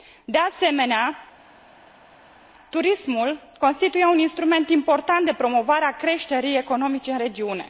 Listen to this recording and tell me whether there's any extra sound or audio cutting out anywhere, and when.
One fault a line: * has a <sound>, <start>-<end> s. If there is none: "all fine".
all fine